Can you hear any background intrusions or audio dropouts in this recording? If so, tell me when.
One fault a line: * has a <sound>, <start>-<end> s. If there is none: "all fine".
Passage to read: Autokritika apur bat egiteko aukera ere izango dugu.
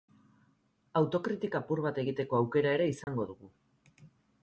* has a dropout, 3.0-3.1 s